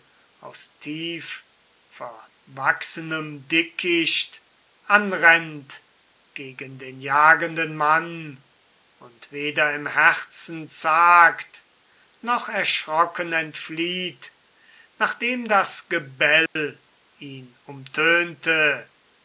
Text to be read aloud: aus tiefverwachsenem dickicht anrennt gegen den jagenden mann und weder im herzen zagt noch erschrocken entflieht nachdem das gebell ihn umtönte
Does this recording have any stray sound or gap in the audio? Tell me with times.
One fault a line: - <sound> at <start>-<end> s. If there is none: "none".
- dropout at 16.5-16.6 s